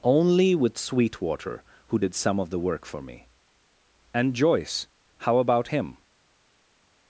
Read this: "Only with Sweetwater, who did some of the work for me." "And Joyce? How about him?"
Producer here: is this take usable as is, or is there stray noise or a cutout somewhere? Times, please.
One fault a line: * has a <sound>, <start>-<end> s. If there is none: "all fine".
all fine